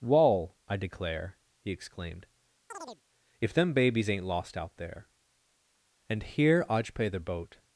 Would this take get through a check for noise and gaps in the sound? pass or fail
fail